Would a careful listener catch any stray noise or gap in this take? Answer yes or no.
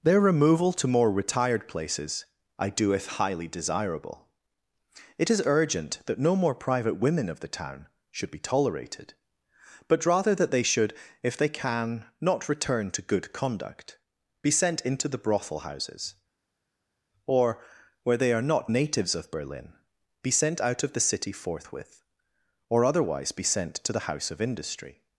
no